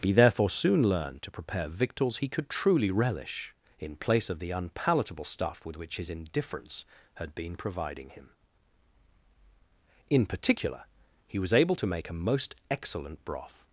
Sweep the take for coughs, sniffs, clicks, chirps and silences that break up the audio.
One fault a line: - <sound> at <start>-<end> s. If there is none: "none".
none